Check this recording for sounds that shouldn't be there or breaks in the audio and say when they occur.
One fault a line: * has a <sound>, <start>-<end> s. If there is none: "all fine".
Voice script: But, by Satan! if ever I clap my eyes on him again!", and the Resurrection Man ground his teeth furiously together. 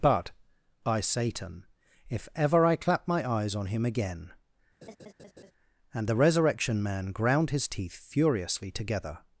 * has a laugh, 4.8-5.5 s